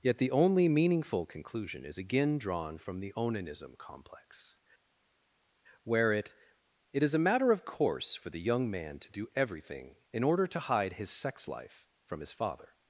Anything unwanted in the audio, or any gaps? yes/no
no